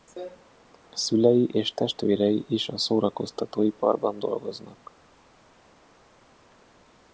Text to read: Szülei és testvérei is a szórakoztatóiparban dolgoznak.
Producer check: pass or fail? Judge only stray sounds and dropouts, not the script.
pass